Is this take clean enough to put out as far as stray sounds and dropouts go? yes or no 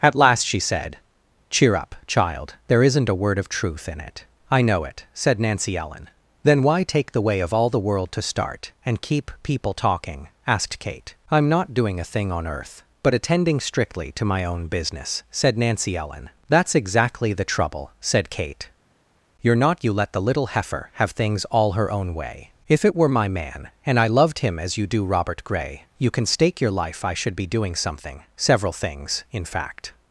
yes